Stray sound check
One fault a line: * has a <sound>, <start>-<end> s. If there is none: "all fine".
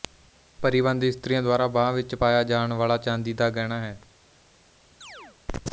* has a chirp, 5.0-5.4 s